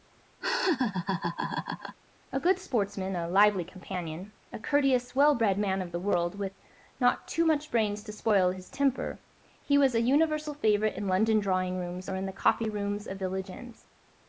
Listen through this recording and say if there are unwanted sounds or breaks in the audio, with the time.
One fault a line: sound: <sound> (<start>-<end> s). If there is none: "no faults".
sound: laugh (0.4-2.0 s)